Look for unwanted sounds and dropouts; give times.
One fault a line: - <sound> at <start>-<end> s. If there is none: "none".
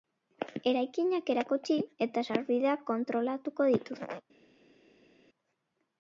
none